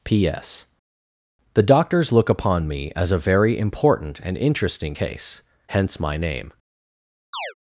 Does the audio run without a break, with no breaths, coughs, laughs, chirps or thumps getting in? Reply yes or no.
no